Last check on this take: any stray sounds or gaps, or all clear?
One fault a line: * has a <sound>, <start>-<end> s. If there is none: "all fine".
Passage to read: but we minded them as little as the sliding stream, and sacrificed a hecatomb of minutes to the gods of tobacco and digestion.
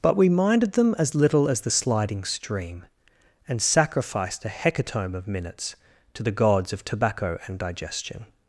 all fine